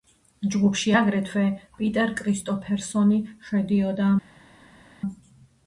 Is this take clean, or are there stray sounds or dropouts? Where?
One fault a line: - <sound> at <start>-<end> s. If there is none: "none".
none